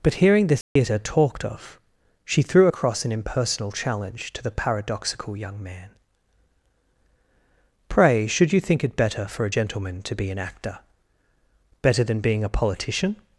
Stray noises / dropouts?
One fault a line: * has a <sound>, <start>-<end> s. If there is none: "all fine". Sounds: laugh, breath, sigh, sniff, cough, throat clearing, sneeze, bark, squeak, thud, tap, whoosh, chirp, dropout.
* has a dropout, 0.6-0.8 s